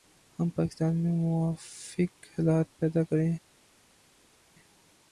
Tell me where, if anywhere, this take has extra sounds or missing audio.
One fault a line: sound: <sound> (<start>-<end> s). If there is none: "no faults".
no faults